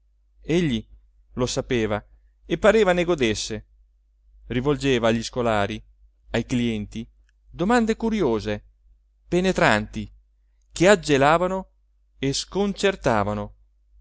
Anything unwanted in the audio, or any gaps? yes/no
no